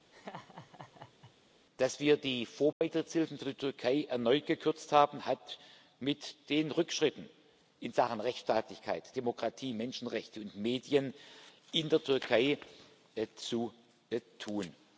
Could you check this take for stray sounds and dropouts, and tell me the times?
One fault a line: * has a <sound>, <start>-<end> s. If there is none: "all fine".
* has a laugh, 0.1-1.3 s
* has a dropout, 2.7-2.8 s